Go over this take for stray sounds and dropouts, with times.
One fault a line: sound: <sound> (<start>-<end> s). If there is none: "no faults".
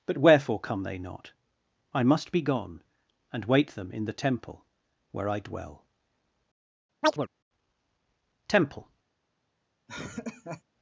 sound: chirp (7.0-7.3 s)
sound: laugh (9.9-10.6 s)